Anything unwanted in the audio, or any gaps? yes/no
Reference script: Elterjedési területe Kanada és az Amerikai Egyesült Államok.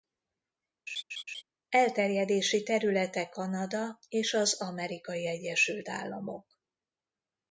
yes